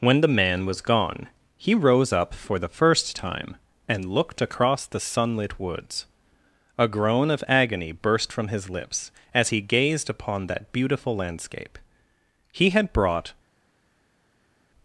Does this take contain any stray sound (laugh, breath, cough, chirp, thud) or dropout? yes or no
no